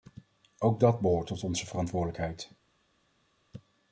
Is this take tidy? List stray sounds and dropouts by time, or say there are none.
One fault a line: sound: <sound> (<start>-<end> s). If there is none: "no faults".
no faults